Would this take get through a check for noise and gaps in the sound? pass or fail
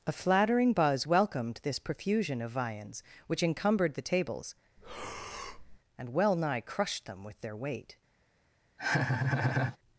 fail